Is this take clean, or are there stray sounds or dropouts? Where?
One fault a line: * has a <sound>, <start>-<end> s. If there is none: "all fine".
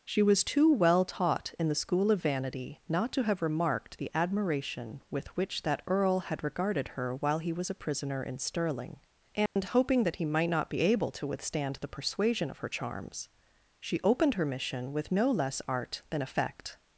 * has a dropout, 9.5-9.6 s